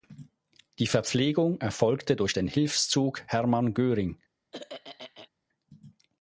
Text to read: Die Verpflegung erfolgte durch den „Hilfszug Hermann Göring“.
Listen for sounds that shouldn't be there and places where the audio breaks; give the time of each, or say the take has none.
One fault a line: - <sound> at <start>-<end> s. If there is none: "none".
- throat clearing at 4.5-5.3 s